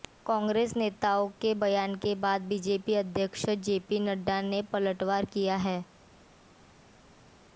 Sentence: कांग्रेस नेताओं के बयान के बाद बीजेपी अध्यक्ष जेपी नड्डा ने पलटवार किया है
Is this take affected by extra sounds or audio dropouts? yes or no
no